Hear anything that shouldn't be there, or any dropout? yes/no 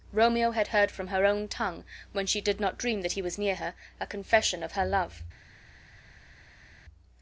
no